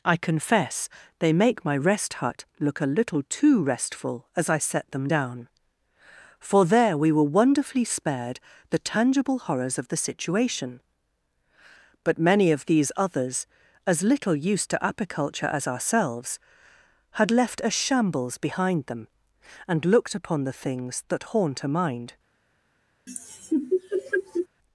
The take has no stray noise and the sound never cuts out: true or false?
false